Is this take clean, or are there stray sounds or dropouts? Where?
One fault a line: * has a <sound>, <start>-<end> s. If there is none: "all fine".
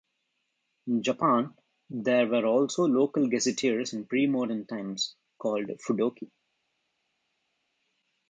all fine